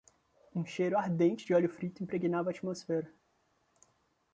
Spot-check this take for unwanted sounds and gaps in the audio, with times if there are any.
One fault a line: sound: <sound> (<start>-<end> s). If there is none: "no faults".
no faults